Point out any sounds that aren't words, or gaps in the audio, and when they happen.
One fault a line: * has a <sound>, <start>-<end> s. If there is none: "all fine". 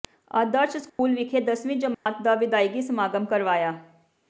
* has a dropout, 0.9-1.0 s
* has a dropout, 1.9-2.1 s